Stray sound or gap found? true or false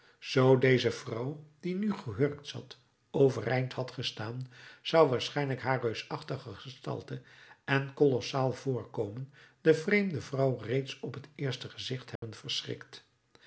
true